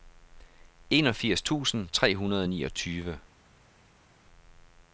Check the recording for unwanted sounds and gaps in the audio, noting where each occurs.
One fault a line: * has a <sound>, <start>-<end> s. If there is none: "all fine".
all fine